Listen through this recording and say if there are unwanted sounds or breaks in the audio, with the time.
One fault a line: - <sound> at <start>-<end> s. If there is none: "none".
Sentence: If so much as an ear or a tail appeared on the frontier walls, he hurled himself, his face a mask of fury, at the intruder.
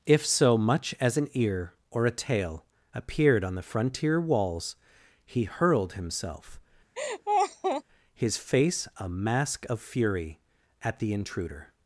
- laugh at 7.0-7.8 s